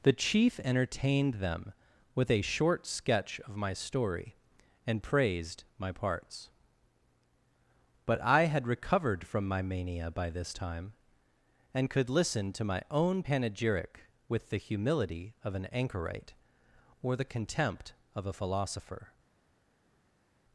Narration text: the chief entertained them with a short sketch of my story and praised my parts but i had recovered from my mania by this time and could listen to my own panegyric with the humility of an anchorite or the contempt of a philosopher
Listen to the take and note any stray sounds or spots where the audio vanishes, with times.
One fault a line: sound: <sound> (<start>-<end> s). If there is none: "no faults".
no faults